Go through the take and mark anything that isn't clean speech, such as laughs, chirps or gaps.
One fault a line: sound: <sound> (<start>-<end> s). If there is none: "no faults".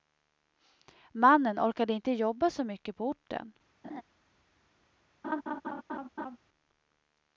sound: laugh (3.8-4.0 s)
sound: laugh (5.2-6.4 s)